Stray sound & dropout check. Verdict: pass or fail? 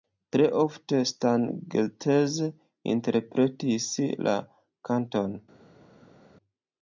pass